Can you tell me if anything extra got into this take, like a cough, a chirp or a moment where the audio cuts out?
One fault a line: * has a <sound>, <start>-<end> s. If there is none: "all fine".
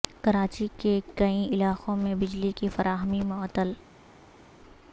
all fine